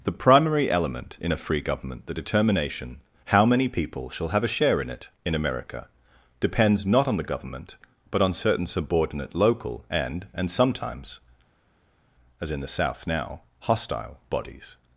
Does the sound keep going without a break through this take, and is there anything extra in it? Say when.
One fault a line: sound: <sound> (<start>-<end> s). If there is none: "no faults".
no faults